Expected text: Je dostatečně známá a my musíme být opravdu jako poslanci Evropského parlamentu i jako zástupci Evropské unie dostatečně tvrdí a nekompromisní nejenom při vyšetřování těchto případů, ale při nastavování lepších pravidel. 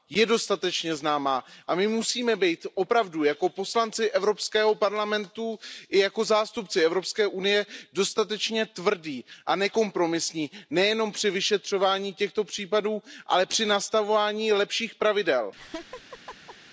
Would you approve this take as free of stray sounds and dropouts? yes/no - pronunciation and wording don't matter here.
no